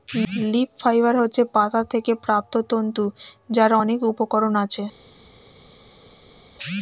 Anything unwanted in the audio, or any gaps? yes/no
no